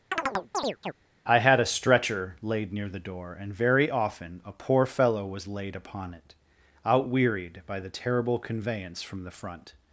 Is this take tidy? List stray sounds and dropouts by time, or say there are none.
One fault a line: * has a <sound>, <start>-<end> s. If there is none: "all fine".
* has a chirp, 0.1-0.9 s